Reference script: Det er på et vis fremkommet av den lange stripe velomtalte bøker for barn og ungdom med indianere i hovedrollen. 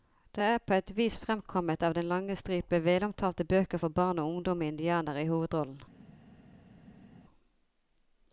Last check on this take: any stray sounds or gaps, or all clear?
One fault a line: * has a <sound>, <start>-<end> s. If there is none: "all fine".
all fine